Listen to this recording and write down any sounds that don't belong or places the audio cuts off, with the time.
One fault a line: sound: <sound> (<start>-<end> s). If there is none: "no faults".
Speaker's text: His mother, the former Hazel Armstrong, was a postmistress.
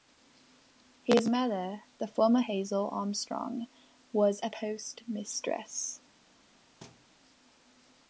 sound: thud (6.8-7.1 s)